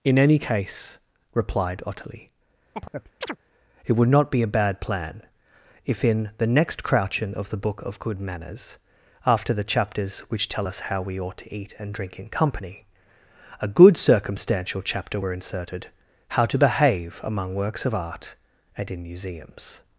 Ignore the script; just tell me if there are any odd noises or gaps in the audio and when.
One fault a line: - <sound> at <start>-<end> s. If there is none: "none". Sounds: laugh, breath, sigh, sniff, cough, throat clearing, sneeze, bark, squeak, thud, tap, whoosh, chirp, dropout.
- chirp at 2.7-3.4 s